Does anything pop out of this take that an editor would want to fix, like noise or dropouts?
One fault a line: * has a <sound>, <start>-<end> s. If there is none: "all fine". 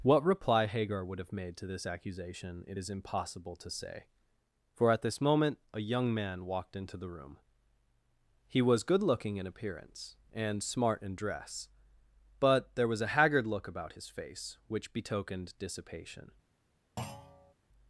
* has a thud, 17.0-17.5 s